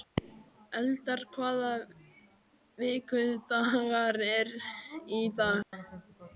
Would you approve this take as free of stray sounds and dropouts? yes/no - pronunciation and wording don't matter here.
no